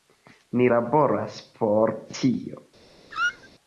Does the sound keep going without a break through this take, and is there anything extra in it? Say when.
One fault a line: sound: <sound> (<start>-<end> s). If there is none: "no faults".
sound: squeak (3.1-3.5 s)